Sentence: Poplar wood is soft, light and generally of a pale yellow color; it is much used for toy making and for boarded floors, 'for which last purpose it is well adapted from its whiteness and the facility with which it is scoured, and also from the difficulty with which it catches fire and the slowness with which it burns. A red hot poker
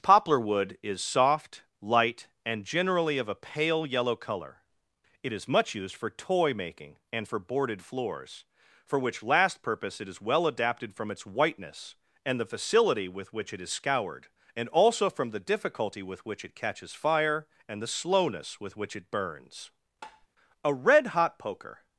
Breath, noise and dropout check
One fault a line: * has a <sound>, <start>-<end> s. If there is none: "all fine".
* has a tap, 20.0-20.3 s